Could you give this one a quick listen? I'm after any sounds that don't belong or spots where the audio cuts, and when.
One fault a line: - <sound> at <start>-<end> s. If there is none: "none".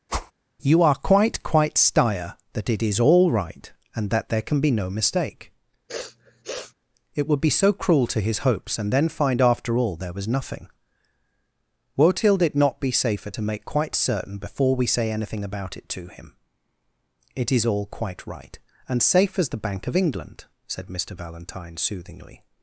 - whoosh at 0.1-0.3 s
- sniff at 5.9-6.7 s